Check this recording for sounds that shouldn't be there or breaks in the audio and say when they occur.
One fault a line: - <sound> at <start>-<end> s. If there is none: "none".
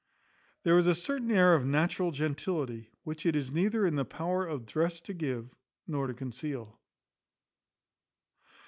none